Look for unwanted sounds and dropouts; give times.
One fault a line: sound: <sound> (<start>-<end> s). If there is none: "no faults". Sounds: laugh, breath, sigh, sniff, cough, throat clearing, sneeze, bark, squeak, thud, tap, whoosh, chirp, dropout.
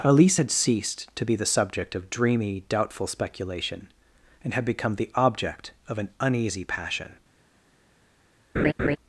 sound: laugh (8.6-9.0 s)